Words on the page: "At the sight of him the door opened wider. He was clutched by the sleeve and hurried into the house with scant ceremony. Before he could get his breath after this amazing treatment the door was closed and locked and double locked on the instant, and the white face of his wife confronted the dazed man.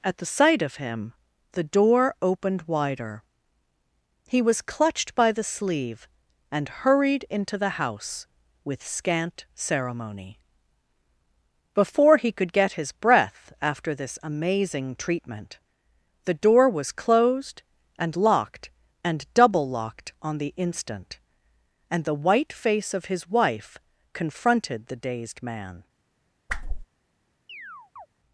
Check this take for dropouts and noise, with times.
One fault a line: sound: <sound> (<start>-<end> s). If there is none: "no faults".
sound: whoosh (26.5-26.9 s)
sound: chirp (27.5-28.1 s)